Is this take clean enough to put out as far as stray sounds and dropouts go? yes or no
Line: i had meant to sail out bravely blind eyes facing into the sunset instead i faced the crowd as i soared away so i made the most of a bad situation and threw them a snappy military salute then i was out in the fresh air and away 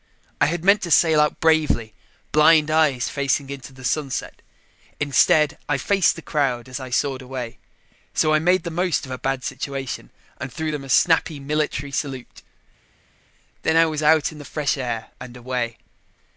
yes